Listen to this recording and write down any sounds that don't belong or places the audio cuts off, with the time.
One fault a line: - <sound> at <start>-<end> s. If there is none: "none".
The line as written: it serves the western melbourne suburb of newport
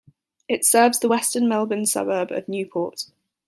none